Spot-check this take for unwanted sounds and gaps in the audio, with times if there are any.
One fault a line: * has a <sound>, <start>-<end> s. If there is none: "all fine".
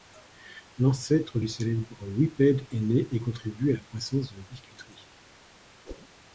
* has a whoosh, 5.9-6.1 s